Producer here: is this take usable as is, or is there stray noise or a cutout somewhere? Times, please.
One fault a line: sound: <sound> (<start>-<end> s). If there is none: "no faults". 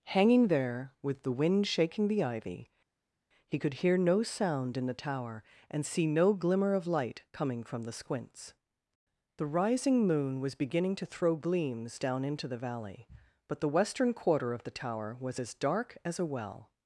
no faults